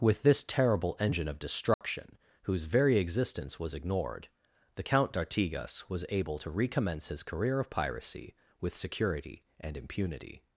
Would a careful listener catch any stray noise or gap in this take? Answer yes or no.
yes